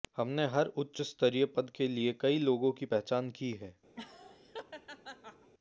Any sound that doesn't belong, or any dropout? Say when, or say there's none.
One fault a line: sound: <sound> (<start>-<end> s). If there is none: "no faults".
sound: laugh (3.9-5.5 s)